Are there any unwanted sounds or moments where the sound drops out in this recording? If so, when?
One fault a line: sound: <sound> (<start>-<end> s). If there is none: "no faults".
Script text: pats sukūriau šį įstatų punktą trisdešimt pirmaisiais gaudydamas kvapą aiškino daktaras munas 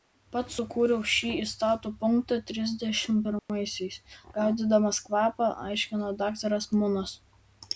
sound: dropout (3.4-3.5 s)